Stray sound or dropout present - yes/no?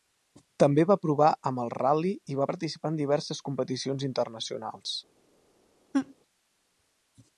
yes